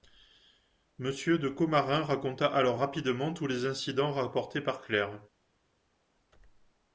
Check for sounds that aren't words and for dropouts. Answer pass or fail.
pass